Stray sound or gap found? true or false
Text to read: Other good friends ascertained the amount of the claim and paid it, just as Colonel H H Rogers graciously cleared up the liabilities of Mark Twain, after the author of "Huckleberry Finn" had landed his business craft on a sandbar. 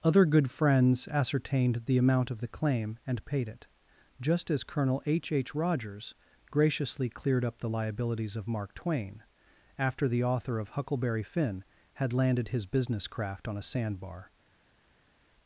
false